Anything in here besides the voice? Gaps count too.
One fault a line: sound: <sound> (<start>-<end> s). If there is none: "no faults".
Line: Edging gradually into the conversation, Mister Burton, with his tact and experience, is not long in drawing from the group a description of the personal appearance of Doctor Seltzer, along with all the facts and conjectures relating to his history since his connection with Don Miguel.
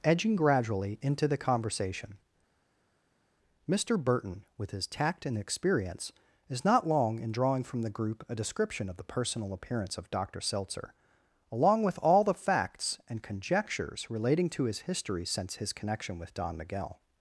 no faults